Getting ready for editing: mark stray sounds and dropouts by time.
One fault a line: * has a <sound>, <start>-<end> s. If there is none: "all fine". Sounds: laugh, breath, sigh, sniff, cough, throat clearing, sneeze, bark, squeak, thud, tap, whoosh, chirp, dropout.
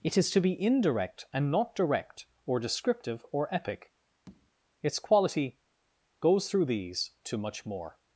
* has a tap, 4.3-4.5 s